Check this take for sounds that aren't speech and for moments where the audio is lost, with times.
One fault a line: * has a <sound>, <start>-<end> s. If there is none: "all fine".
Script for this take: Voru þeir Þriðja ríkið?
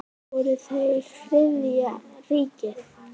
all fine